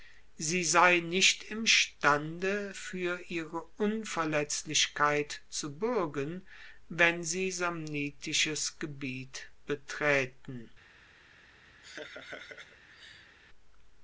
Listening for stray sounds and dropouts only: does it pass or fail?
fail